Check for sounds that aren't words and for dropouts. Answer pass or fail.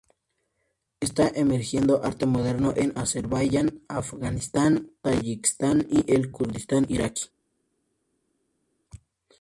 pass